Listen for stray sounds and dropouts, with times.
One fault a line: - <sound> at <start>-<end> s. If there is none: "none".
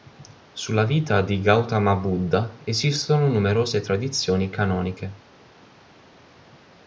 none